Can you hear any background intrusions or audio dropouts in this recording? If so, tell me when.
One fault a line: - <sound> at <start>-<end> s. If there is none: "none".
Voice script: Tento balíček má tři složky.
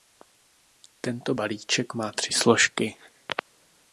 none